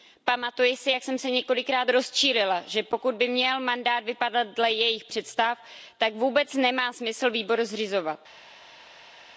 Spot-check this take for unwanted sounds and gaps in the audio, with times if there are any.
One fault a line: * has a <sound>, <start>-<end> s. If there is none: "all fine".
all fine